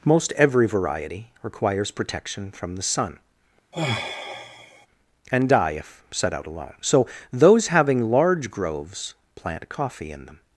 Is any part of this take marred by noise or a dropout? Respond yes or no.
yes